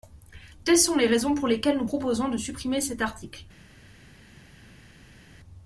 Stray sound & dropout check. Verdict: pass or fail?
pass